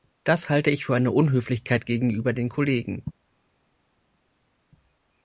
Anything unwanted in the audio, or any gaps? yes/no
no